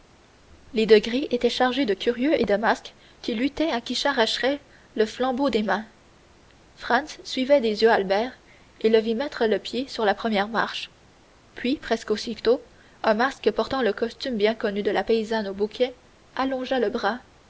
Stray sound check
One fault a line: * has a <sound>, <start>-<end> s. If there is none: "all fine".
all fine